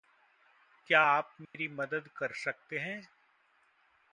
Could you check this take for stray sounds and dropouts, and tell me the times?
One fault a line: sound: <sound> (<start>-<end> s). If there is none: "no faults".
sound: dropout (1.5-1.5 s)